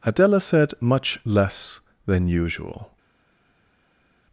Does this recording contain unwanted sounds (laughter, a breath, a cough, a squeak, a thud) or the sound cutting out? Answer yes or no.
no